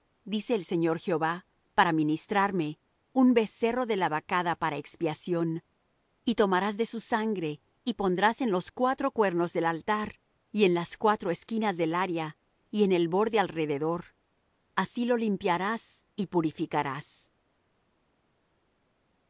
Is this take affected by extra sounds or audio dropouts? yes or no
no